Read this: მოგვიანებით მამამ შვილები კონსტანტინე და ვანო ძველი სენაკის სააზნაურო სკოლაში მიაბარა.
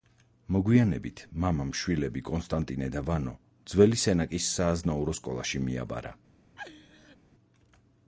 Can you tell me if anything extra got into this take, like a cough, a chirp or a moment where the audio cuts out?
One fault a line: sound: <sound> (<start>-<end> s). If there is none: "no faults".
sound: laugh (6.6-7.2 s)